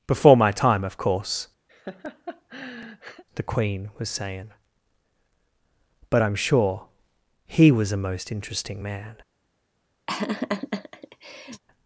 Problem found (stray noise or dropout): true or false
true